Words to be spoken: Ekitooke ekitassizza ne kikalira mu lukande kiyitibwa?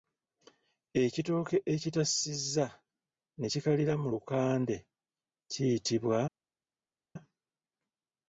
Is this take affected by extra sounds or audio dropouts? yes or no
no